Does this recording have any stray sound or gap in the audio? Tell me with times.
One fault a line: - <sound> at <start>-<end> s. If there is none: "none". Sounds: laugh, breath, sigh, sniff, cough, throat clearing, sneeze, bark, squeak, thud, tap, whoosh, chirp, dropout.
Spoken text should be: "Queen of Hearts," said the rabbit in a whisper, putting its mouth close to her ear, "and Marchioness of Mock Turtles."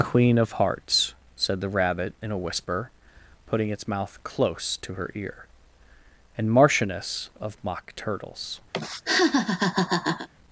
- laugh at 8.7-10.3 s